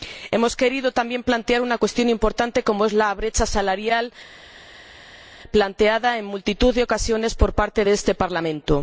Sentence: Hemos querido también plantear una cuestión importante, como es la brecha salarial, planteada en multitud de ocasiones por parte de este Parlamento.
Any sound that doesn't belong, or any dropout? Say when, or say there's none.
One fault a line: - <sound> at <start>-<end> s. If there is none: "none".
none